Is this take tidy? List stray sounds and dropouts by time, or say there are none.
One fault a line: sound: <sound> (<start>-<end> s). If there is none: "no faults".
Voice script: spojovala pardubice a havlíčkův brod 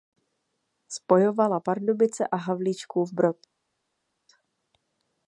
no faults